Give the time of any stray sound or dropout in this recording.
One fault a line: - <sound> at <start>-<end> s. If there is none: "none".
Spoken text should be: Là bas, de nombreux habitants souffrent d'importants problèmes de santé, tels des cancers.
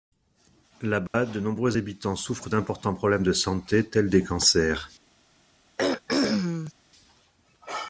- dropout at 1.1-1.1 s
- throat clearing at 5.8-6.7 s